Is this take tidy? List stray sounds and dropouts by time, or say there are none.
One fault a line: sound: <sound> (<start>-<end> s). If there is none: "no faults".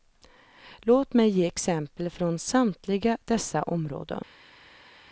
no faults